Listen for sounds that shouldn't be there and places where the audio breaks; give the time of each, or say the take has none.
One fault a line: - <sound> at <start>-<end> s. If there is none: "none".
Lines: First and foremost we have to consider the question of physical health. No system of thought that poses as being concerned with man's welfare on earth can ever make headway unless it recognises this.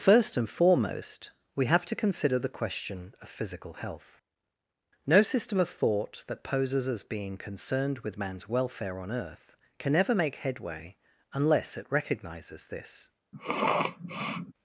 - sniff at 13.3-14.5 s